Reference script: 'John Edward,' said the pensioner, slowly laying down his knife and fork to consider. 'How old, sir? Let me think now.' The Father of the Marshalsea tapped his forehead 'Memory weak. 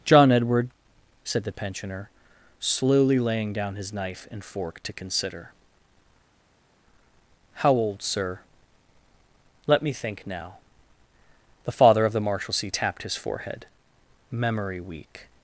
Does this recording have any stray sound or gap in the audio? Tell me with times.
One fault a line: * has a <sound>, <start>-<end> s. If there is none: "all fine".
all fine